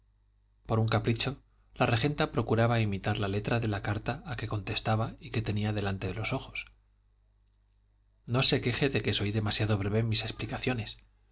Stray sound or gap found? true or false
false